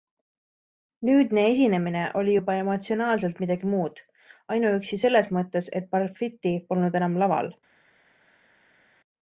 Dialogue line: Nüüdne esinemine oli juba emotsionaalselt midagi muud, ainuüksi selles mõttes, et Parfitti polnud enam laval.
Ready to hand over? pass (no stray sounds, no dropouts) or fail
pass